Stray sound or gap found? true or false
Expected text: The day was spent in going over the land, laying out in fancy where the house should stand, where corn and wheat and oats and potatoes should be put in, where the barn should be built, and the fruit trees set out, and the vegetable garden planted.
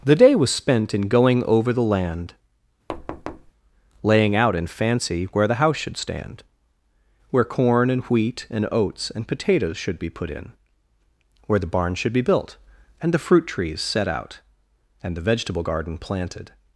true